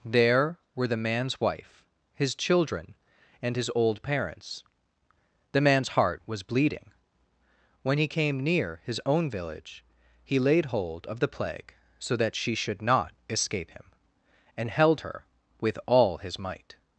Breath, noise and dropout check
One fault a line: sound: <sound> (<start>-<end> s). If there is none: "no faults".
no faults